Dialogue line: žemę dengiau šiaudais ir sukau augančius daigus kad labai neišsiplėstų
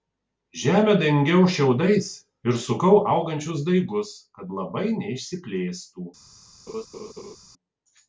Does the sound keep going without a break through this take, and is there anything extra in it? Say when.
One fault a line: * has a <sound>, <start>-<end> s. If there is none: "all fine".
* has a laugh, 6.7-7.4 s